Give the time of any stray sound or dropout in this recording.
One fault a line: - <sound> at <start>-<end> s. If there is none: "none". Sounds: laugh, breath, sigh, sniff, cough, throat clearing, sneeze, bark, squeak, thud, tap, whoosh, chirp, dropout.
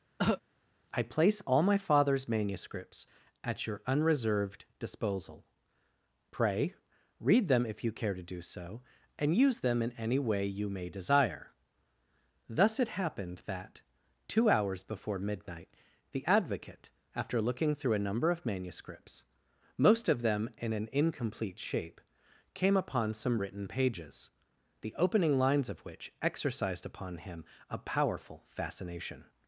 - cough at 0.2-0.4 s